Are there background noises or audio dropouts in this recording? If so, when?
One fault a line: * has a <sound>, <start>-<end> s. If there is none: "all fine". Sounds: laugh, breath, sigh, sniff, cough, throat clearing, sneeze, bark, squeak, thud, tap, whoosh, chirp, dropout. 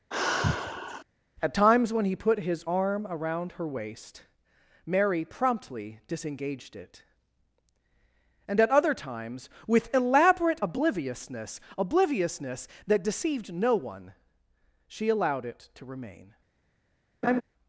* has a sigh, 0.1-1.0 s
* has a laugh, 17.2-17.4 s